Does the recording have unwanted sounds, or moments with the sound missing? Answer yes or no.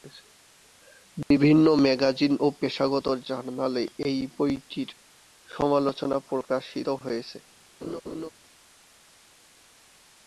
yes